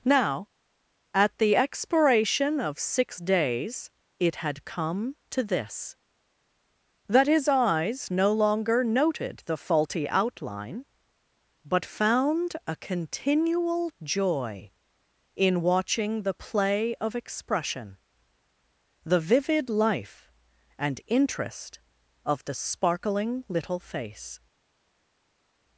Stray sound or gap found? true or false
false